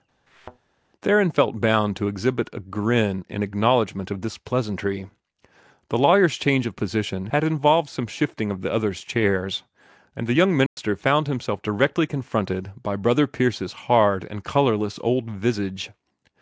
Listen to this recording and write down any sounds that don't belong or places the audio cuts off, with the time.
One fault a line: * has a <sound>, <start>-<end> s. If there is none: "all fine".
* has a thud, 0.3-0.6 s
* has a dropout, 10.7-10.8 s